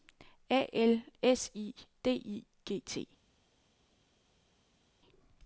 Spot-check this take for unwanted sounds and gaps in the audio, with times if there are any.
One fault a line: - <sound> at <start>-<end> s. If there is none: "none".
none